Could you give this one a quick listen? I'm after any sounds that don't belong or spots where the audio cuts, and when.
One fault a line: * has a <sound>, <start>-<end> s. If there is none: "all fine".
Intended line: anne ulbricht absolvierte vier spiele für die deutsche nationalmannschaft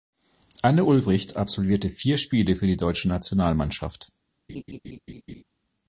* has a laugh, 4.5-5.4 s